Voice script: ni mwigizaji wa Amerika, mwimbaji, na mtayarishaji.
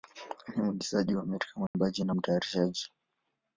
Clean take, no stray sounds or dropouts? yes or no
no